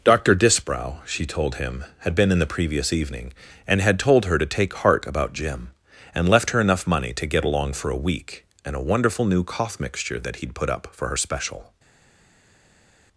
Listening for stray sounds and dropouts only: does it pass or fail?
pass